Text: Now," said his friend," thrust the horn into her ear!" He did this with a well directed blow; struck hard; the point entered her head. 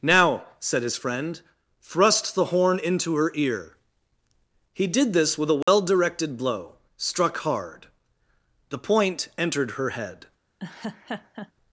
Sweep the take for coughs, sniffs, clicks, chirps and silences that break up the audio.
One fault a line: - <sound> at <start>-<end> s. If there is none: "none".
- dropout at 5.6-5.7 s
- laugh at 10.6-11.5 s